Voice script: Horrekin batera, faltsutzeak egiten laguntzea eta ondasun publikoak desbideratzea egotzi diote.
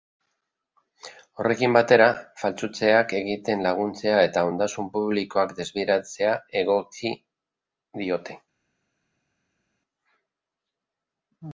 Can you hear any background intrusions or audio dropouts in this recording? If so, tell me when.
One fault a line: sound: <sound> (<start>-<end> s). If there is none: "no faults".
no faults